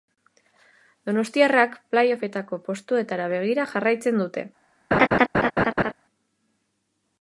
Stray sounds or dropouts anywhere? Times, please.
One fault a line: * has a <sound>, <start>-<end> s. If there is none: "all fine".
* has a laugh, 4.9-5.9 s